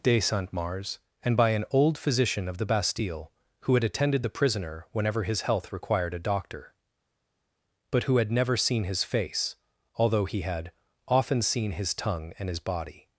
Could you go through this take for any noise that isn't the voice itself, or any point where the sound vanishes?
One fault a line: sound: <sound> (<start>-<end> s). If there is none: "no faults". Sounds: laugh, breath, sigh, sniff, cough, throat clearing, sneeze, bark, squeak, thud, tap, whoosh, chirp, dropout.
no faults